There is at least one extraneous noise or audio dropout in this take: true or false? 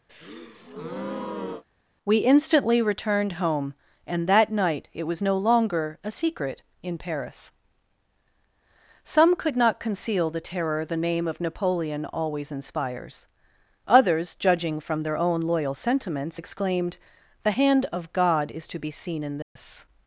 true